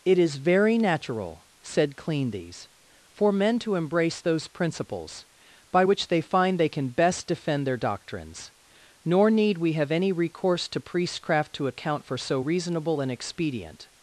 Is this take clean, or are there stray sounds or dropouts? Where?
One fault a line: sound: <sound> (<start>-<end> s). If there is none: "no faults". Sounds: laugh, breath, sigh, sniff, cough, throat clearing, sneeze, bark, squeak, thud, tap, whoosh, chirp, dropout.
no faults